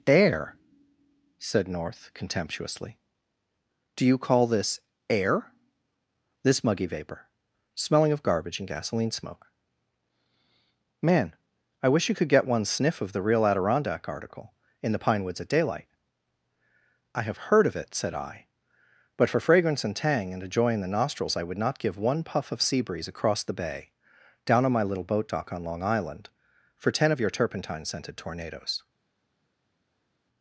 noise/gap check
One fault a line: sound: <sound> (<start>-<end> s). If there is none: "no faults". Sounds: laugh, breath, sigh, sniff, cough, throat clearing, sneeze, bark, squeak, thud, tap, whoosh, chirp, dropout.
no faults